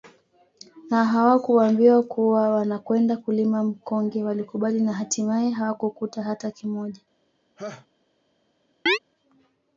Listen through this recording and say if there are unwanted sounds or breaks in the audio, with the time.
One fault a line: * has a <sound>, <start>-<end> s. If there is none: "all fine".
* has a laugh, 7.6-7.9 s
* has a chirp, 8.9-9.0 s